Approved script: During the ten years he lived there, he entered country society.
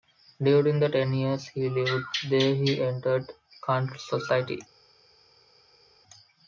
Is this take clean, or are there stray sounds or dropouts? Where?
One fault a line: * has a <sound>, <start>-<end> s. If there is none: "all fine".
all fine